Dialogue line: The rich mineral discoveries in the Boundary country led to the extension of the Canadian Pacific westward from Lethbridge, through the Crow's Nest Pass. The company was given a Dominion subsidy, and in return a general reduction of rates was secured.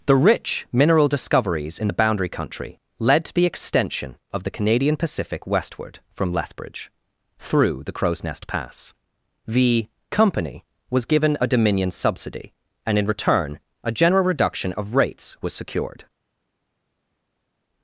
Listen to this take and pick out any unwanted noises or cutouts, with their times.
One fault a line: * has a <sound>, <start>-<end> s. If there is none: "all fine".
all fine